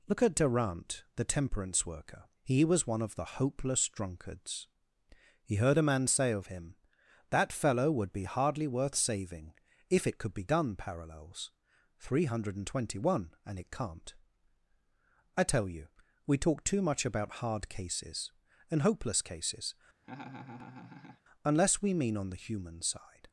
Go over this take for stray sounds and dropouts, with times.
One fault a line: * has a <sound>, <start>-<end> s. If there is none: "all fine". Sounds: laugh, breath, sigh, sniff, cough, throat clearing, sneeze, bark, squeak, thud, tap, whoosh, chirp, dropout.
* has a laugh, 20.0-21.2 s